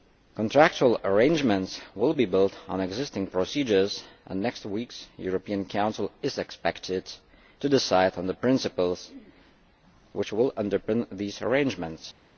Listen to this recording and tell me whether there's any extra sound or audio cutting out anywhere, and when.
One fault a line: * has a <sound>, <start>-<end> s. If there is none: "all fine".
all fine